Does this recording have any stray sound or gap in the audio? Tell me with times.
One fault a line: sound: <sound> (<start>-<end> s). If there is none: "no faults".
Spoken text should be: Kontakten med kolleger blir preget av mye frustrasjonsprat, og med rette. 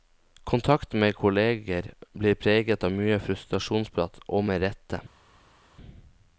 no faults